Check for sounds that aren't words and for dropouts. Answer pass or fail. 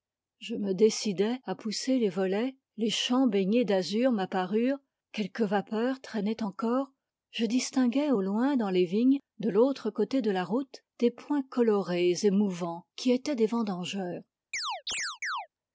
fail